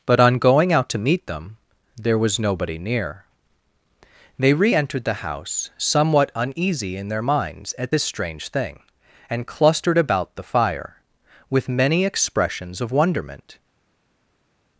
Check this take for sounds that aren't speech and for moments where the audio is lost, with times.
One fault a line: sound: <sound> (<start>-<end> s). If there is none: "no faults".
no faults